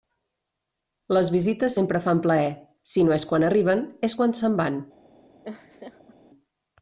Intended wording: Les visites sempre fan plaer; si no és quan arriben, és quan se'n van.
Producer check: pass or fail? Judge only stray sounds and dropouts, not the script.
fail